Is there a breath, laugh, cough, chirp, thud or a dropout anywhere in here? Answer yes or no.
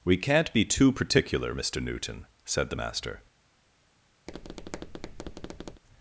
yes